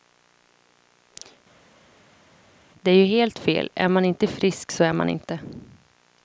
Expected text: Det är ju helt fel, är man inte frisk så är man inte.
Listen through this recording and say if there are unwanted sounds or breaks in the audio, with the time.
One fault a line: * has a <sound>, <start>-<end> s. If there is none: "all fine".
all fine